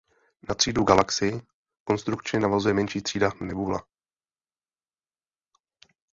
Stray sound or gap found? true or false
false